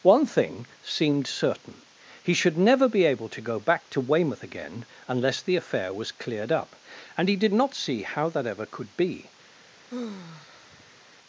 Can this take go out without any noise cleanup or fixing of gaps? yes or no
no